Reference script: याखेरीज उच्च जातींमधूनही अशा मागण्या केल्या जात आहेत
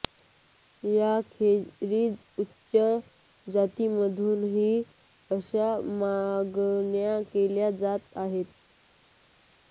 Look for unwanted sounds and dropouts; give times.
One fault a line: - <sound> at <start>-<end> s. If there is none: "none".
none